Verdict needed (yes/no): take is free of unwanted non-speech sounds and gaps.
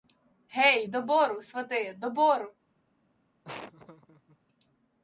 no